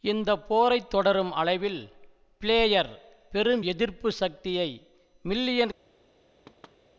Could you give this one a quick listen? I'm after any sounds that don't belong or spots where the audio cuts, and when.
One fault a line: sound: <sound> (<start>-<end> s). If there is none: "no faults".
sound: thud (6.5-6.8 s)